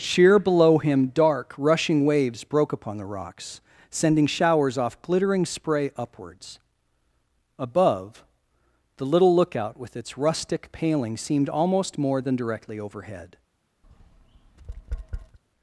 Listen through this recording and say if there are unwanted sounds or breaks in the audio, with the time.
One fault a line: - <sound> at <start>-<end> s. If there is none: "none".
- tap at 13.8-15.4 s